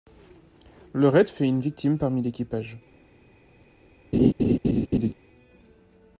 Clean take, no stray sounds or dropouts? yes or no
no